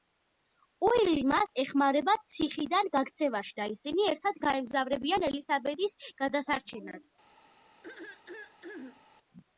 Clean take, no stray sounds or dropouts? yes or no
no